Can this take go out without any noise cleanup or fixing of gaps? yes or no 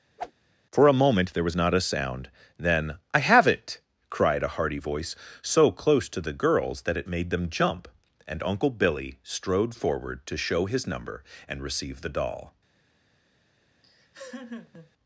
no